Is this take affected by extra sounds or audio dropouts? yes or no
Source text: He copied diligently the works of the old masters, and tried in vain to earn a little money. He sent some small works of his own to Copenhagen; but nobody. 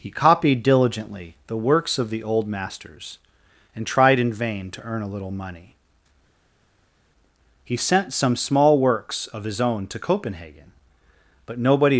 no